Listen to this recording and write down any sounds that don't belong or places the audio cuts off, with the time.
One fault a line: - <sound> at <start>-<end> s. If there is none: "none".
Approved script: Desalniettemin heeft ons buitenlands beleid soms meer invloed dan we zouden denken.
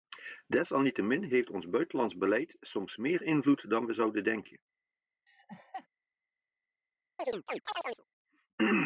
- laugh at 5.3-5.9 s
- chirp at 7.2-8.0 s